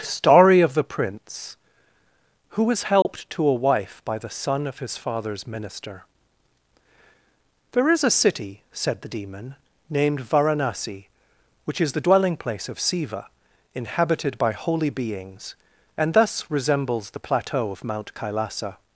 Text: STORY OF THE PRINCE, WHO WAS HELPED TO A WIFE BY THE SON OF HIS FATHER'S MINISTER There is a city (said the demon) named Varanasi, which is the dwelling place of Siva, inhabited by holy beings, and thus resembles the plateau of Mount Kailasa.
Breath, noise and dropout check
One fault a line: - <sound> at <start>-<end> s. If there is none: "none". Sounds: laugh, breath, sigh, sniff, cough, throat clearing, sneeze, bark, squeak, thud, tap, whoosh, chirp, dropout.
- dropout at 3.0-3.1 s